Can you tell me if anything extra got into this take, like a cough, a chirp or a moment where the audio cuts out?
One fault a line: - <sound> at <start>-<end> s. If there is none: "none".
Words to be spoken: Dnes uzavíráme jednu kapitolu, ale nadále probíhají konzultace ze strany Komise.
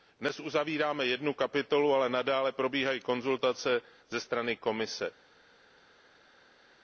none